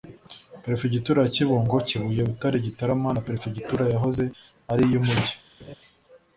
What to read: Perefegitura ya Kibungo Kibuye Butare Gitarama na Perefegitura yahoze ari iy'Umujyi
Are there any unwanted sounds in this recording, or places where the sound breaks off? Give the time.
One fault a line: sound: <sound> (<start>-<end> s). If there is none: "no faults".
sound: laugh (5.6-5.8 s)